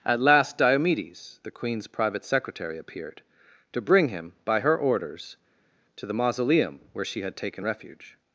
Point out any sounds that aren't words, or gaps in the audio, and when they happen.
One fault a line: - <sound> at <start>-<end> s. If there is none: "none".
none